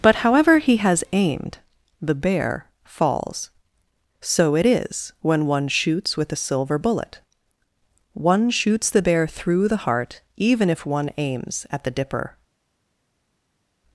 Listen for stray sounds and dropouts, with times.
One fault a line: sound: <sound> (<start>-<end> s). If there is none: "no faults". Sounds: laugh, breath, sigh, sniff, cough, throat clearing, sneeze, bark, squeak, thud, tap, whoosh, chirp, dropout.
no faults